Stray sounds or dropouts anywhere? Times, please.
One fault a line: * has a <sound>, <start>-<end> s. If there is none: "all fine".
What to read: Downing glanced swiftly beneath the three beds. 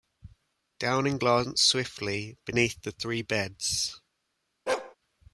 * has a bark, 4.7-5.0 s